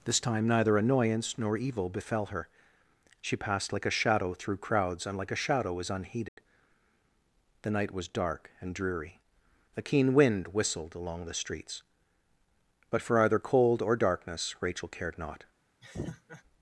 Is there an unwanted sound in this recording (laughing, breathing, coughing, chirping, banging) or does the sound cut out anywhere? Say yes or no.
yes